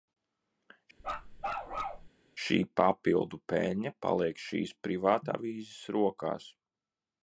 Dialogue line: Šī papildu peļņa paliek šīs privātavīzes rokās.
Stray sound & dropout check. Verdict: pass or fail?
fail